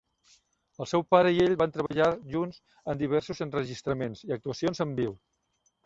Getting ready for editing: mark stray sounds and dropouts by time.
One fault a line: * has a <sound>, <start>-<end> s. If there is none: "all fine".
* has a dropout, 1.9-1.9 s